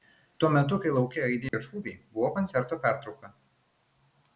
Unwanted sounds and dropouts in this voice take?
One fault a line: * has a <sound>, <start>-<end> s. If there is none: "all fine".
* has a dropout, 1.5-1.5 s